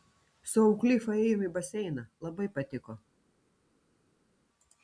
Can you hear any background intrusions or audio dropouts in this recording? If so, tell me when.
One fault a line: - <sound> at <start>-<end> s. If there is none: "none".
none